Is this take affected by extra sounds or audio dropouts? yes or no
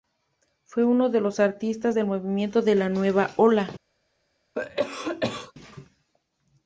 yes